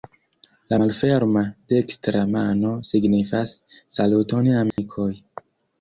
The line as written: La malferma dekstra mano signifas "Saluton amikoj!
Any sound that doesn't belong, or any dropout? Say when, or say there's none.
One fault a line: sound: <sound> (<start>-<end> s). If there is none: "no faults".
sound: dropout (4.7-4.8 s)